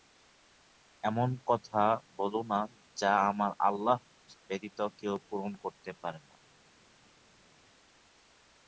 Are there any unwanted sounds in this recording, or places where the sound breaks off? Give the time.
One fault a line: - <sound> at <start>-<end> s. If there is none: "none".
none